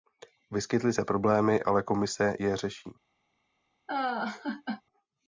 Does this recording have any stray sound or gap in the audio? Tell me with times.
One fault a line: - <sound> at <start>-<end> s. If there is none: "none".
- laugh at 3.9-4.8 s